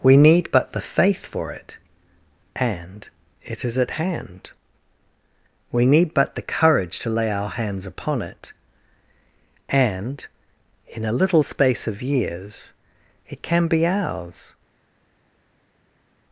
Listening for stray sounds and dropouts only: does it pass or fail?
pass